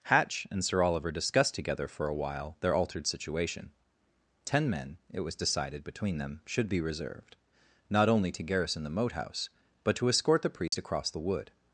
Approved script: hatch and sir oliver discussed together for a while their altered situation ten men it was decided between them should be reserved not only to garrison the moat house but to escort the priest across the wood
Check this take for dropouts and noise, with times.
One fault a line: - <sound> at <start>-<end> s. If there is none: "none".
- dropout at 10.7-10.7 s